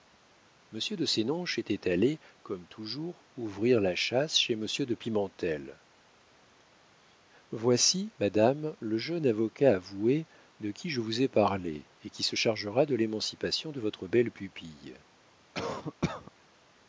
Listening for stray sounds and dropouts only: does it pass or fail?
fail